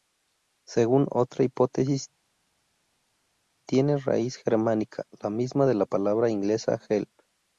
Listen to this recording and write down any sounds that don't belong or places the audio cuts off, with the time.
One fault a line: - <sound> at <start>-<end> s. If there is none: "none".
none